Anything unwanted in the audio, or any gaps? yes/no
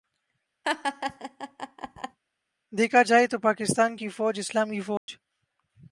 yes